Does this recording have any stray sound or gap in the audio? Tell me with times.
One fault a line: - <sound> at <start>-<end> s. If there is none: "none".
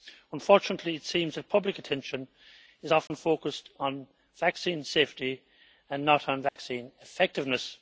- dropout at 3.1-3.1 s
- dropout at 6.5-6.6 s